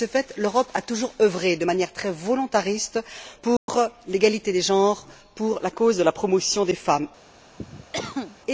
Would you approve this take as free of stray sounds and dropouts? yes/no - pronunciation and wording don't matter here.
no